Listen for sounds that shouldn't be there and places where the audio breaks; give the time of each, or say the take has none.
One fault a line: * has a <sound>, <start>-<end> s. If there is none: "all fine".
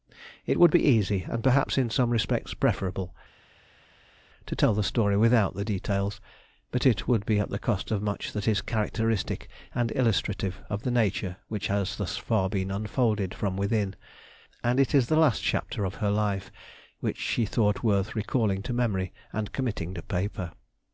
all fine